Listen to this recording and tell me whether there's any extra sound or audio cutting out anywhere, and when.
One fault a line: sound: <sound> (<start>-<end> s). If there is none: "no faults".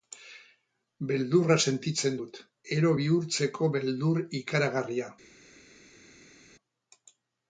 no faults